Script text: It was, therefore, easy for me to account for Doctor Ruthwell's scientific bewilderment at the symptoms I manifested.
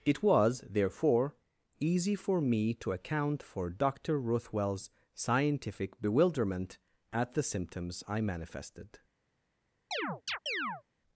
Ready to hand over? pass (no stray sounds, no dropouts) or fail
fail